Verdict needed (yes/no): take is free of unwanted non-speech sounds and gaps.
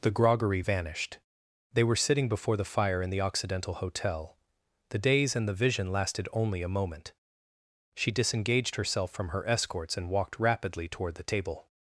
yes